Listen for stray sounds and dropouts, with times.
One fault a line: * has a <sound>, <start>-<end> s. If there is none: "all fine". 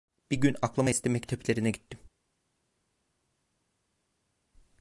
all fine